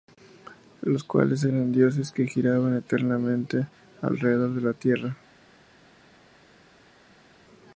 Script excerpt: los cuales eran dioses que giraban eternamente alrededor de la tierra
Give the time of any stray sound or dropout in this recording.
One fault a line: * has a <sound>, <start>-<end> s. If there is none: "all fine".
all fine